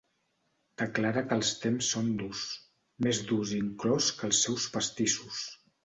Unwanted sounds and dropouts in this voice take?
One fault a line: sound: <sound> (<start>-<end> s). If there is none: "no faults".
no faults